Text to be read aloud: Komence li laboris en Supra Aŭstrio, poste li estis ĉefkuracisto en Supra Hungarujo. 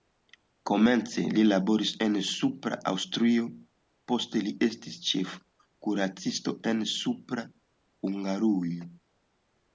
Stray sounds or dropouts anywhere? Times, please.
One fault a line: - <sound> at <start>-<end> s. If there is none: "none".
none